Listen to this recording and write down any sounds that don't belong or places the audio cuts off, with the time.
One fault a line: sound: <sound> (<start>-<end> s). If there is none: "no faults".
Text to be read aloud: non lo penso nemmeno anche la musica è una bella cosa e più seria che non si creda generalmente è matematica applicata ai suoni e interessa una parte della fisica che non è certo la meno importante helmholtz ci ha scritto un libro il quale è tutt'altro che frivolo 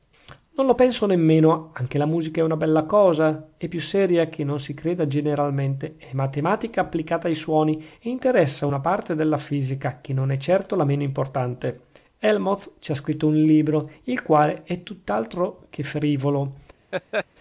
sound: laugh (16.9-17.3 s)